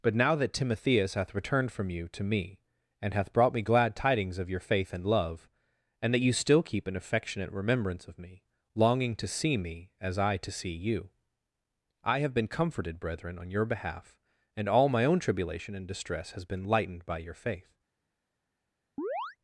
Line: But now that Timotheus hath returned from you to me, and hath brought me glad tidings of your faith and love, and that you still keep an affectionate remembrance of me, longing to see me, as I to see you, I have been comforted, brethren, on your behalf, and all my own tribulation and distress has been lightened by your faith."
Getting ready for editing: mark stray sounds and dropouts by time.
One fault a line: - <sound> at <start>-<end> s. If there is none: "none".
- chirp at 19.0-19.4 s